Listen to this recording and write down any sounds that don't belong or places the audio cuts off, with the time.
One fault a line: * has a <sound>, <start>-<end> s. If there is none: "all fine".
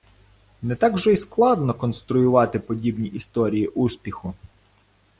all fine